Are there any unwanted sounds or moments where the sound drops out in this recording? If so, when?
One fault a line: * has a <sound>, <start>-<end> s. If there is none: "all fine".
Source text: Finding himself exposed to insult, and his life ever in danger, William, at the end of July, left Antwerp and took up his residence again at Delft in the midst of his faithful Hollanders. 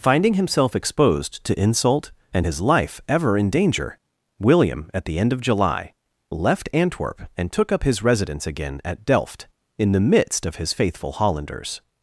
all fine